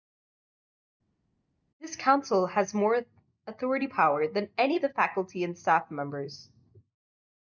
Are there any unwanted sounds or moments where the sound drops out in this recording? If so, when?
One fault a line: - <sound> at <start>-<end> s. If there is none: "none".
none